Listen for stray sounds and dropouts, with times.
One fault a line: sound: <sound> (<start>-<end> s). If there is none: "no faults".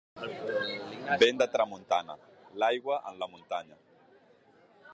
no faults